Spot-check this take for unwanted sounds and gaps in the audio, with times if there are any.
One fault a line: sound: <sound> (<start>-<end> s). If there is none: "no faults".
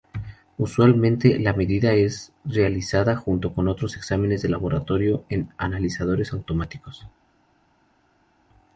no faults